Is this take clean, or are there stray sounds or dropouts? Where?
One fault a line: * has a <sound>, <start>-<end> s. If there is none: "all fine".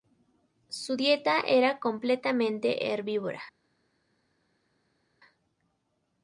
all fine